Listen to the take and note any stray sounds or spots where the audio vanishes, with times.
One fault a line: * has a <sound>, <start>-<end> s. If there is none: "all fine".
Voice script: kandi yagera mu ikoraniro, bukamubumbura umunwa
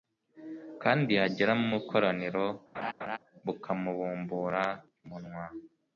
* has a laugh, 2.7-3.2 s